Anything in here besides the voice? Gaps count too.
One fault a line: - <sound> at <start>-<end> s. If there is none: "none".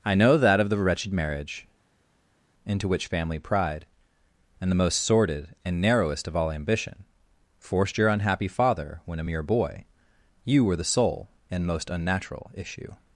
none